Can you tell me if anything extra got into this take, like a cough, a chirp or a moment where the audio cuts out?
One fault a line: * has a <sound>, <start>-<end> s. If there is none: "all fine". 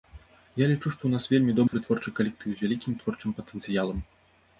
* has a dropout, 1.7-1.7 s